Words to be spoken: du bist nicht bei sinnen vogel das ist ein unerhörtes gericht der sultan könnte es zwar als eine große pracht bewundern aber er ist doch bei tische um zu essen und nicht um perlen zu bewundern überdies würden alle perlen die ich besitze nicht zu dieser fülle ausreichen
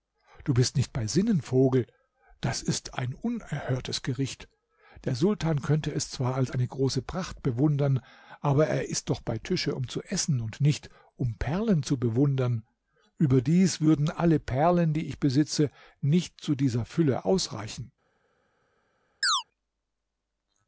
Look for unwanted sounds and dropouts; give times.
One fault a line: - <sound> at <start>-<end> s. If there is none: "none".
- chirp at 19.2-19.4 s